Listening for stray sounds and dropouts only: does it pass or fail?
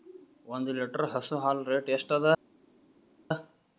pass